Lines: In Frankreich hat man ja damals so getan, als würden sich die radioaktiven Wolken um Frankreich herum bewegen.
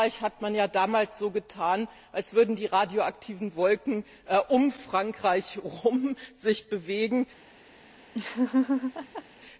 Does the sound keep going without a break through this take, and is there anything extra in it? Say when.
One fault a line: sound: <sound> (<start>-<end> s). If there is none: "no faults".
sound: laugh (8.1-9.2 s)